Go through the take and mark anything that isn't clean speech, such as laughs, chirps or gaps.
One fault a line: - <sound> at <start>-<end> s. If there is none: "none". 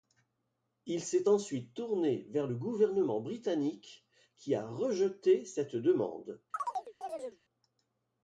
- chirp at 6.5-7.4 s